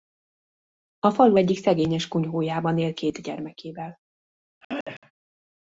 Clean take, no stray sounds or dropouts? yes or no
no